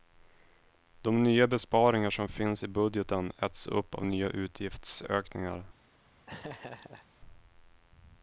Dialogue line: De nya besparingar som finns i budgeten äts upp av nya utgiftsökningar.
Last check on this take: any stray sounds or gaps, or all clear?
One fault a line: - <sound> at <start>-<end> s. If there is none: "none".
- laugh at 6.3-7.1 s